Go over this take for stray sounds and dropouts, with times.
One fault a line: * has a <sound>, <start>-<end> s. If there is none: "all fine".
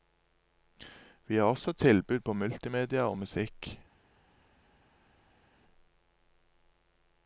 all fine